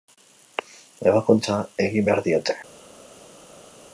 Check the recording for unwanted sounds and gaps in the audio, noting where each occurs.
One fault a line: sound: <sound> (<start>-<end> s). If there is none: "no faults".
no faults